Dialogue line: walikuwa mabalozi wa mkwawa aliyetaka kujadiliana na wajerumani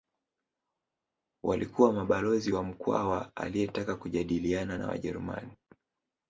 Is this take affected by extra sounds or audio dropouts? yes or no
no